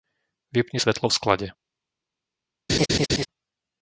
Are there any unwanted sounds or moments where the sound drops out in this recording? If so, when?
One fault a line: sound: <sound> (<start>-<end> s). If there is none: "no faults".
sound: laugh (2.7-3.3 s)